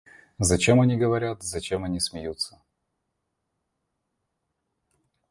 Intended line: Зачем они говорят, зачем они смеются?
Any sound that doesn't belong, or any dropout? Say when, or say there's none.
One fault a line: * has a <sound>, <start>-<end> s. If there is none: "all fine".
all fine